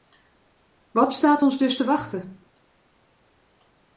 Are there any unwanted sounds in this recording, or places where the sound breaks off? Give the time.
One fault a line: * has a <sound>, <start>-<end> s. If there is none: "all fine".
all fine